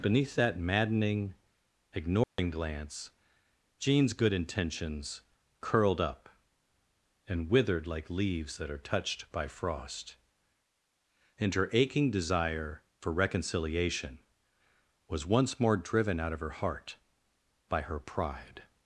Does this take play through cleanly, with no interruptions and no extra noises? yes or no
no